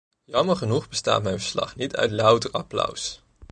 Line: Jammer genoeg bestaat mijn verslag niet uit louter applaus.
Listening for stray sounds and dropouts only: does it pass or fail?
pass